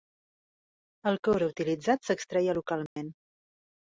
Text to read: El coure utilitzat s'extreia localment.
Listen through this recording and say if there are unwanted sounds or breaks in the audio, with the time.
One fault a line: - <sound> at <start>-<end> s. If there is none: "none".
- dropout at 2.9-3.0 s